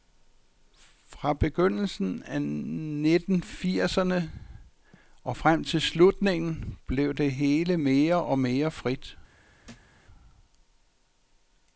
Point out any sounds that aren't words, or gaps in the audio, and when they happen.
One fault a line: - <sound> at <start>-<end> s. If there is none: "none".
- thud at 9.6-10.0 s